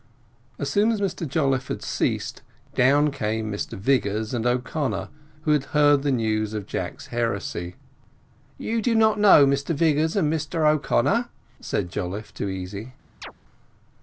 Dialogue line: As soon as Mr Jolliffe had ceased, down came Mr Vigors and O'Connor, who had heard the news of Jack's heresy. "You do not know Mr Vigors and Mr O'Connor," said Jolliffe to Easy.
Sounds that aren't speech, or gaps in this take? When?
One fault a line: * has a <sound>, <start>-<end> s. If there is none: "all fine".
* has a chirp, 13.2-13.3 s